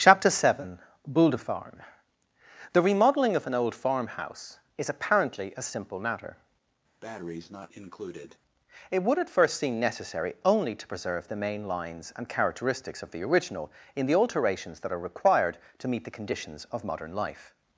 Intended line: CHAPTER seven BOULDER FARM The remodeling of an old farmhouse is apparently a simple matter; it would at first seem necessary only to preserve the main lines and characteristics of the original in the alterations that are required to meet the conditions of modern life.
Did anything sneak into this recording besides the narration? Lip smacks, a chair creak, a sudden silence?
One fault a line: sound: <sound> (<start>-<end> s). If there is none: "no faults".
sound: breath (7.0-8.4 s)